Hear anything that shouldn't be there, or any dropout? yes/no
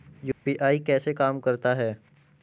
yes